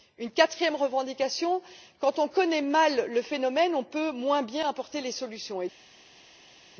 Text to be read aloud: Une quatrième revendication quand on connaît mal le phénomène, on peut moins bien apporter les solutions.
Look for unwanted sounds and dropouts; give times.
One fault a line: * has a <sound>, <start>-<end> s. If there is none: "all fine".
all fine